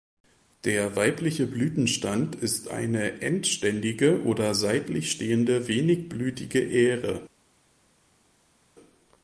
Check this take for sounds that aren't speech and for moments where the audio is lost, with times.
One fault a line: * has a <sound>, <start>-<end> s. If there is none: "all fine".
all fine